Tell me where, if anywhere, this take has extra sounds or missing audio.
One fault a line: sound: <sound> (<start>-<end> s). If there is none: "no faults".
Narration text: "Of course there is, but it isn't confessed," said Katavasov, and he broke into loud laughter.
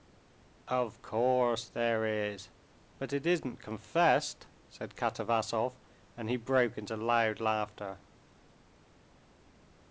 no faults